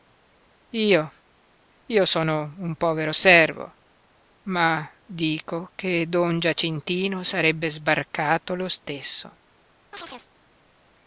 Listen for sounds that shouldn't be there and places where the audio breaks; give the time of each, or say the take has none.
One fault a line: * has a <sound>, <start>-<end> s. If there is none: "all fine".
* has a chirp, 9.9-10.3 s